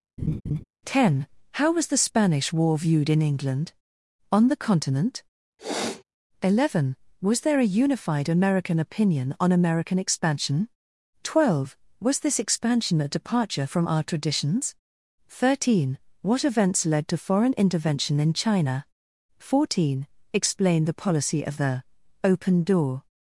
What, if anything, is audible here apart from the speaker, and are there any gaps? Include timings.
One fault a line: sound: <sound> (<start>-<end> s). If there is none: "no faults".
sound: laugh (0.2-0.6 s)
sound: sniff (5.6-6.0 s)